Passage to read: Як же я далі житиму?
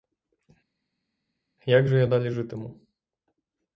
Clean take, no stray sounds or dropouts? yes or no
yes